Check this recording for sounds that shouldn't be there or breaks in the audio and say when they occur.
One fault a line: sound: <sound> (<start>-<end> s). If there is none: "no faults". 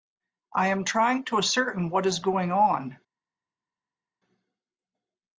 no faults